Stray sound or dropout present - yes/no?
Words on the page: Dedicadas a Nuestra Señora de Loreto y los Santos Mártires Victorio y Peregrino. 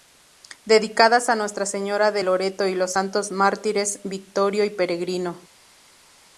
no